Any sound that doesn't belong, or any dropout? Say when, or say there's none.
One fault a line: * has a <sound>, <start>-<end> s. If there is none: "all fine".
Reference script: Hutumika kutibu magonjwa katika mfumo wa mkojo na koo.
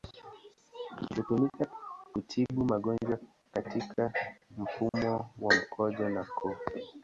* has a dropout, 4.9-4.9 s